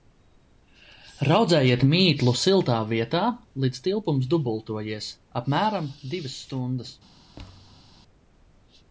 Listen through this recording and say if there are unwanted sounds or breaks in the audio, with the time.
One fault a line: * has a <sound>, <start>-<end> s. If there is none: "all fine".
* has a thud, 7.4-7.9 s